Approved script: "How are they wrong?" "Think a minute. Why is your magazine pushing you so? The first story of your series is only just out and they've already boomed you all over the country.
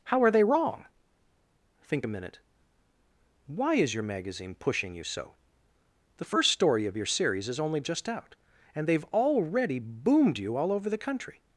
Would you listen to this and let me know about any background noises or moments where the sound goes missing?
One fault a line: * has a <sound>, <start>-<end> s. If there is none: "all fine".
all fine